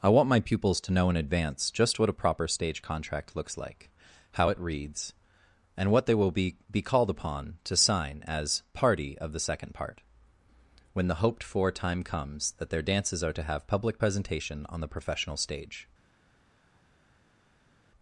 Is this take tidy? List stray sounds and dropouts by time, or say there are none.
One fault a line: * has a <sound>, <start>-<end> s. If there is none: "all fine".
all fine